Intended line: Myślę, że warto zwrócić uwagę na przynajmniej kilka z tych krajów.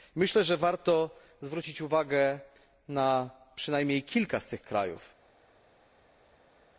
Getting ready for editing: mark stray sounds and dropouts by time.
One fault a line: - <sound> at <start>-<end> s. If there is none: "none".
none